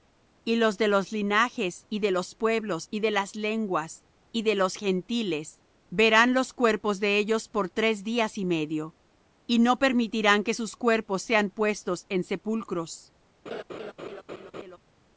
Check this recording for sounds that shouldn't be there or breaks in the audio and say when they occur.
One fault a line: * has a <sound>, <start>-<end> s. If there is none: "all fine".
* has a laugh, 13.5-14.8 s